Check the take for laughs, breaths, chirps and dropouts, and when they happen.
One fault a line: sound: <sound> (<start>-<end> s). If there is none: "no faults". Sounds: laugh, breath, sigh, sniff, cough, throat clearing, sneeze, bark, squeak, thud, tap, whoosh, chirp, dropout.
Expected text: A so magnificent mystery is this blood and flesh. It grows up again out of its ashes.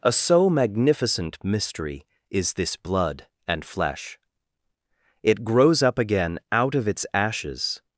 no faults